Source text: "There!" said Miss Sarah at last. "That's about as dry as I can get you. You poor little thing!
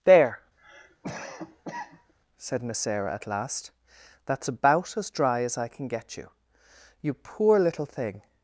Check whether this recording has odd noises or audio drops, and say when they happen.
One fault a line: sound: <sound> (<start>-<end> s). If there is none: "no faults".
sound: cough (0.6-2.1 s)